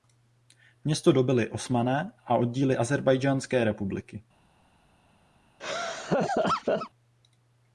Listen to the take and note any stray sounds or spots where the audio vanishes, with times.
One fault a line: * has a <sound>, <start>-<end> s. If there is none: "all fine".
* has a laugh, 5.6-6.9 s